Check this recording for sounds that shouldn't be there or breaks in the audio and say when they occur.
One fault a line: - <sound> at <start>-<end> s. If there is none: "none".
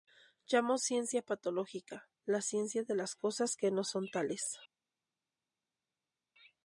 none